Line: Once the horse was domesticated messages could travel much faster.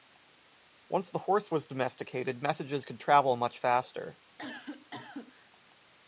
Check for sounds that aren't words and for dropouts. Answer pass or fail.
fail